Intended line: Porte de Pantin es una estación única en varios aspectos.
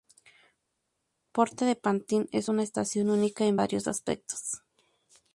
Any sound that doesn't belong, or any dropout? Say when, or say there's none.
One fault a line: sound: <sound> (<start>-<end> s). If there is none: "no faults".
no faults